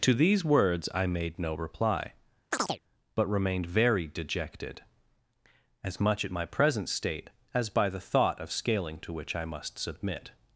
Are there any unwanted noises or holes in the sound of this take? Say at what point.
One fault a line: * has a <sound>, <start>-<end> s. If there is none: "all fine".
* has a chirp, 2.5-2.8 s